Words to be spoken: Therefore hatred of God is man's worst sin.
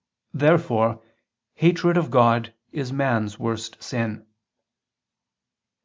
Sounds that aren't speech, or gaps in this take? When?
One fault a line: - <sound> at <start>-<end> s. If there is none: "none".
none